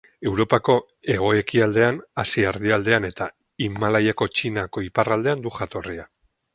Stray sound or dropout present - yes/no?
no